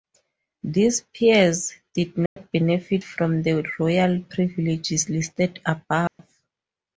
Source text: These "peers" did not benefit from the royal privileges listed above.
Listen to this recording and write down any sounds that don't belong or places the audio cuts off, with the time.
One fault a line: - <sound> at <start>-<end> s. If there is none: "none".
- dropout at 2.3-2.4 s
- dropout at 6.1-6.2 s